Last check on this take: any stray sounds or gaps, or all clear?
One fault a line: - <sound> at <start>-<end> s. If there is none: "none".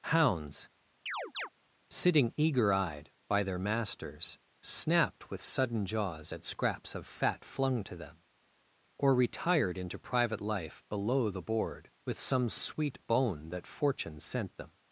- chirp at 1.1-1.5 s